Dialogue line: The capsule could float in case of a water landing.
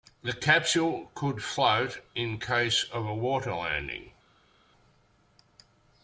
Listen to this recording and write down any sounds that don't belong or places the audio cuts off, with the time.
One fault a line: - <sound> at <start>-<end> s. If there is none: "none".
none